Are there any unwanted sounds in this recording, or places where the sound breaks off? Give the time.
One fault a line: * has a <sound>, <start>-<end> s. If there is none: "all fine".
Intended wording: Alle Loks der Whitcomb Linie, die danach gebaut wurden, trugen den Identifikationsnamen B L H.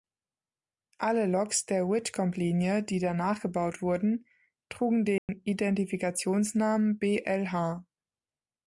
* has a dropout, 5.2-5.3 s